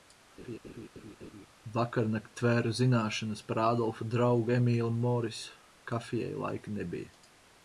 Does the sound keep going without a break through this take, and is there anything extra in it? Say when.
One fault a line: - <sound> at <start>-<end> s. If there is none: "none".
- laugh at 0.4-1.5 s